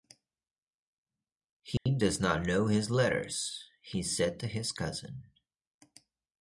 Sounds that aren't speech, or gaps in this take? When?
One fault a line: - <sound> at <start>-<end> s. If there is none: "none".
- dropout at 1.8-1.9 s